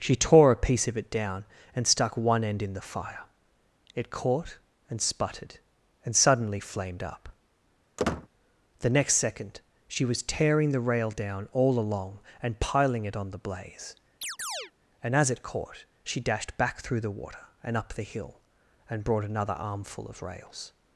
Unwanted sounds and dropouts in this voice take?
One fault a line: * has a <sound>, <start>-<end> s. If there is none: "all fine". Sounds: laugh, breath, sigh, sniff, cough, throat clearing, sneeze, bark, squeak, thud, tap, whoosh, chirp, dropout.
* has a squeak, 8.0-8.3 s
* has a chirp, 14.2-14.7 s